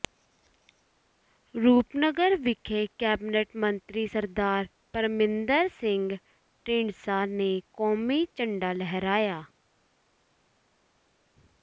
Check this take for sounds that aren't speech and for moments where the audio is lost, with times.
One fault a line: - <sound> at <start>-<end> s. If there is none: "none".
none